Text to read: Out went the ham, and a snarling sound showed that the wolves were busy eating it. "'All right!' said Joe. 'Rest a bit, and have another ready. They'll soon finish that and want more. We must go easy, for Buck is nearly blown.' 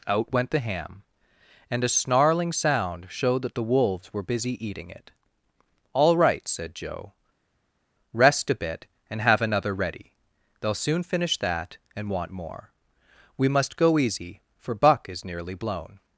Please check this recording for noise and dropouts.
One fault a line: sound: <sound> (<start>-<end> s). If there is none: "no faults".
no faults